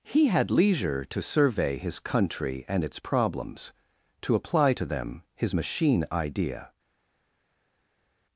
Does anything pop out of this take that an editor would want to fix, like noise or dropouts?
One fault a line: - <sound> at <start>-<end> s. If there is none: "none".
none